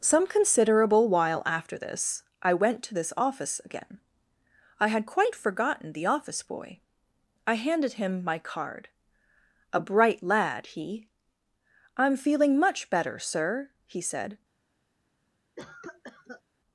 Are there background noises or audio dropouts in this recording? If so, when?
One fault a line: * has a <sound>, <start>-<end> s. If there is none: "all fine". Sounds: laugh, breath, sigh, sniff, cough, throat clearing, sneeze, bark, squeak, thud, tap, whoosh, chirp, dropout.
* has a cough, 15.6-16.4 s